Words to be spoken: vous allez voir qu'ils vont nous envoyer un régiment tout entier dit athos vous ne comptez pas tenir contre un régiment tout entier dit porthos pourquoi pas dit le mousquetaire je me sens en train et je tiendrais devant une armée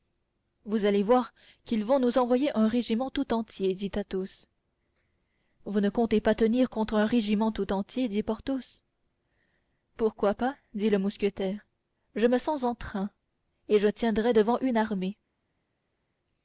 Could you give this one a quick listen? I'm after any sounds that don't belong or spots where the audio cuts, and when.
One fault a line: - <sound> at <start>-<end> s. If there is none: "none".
none